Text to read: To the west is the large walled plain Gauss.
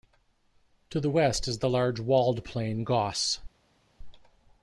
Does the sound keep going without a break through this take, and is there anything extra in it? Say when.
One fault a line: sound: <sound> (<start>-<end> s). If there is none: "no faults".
no faults